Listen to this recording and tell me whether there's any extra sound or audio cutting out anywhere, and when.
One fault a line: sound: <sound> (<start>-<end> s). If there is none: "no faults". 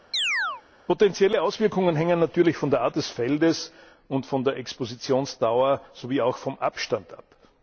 sound: chirp (0.1-0.6 s)